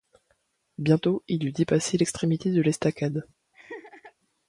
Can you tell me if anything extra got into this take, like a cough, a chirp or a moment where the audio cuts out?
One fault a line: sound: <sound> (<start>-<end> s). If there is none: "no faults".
sound: laugh (3.5-4.1 s)